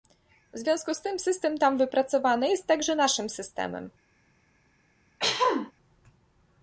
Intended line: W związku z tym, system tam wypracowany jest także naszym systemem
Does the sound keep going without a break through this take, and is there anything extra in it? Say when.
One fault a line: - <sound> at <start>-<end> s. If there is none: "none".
- throat clearing at 5.2-5.7 s